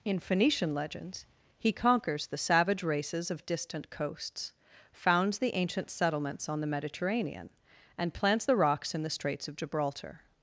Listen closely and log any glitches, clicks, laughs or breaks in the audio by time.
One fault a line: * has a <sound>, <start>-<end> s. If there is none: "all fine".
all fine